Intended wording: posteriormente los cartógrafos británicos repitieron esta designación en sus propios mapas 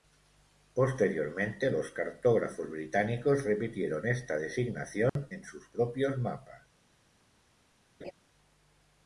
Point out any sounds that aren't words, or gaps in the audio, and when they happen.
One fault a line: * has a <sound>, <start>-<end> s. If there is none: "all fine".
* has a dropout, 5.1-5.2 s
* has a laugh, 8.0-8.1 s